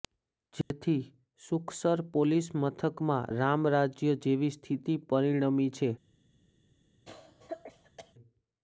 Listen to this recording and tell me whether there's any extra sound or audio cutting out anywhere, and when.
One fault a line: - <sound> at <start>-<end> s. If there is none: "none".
- dropout at 0.6-0.7 s
- cough at 7.1-8.1 s